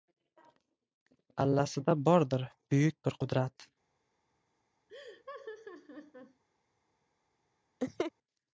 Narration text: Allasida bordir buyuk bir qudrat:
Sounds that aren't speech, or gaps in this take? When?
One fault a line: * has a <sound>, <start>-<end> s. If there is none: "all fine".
* has a laugh, 4.9-6.4 s
* has a laugh, 7.8-8.1 s